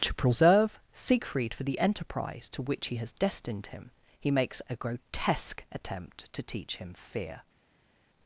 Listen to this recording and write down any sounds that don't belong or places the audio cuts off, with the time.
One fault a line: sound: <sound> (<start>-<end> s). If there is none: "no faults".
no faults